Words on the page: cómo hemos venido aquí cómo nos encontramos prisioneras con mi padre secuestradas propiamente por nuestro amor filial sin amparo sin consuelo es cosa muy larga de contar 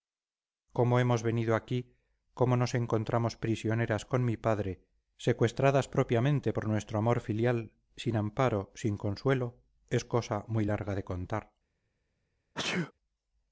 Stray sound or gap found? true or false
true